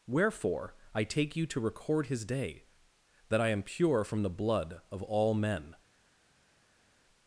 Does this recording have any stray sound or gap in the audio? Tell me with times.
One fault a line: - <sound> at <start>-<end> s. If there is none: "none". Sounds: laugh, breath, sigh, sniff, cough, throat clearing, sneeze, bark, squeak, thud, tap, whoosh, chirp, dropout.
none